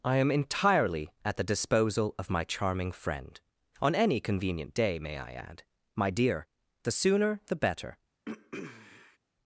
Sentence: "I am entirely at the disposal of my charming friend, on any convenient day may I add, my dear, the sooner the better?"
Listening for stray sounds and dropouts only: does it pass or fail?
fail